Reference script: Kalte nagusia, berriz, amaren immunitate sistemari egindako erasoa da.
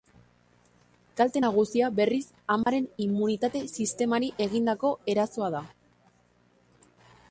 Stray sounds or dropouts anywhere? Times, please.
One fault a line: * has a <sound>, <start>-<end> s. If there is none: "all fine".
* has a dropout, 2.6-2.7 s